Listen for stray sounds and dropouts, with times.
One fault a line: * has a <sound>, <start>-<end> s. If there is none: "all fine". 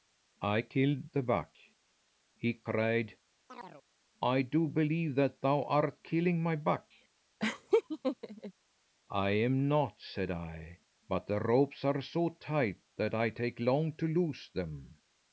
* has a chirp, 3.5-3.8 s
* has a laugh, 7.4-8.5 s